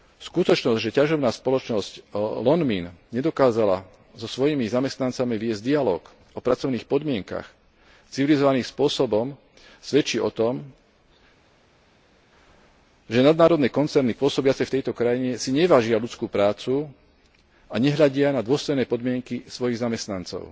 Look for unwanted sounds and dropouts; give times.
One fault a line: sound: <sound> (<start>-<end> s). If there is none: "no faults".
no faults